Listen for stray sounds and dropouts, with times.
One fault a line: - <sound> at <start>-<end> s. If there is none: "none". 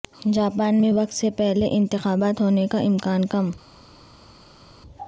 none